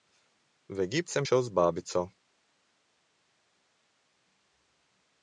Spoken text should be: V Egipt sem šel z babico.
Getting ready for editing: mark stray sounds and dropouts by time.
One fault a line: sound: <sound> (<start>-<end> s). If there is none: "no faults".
no faults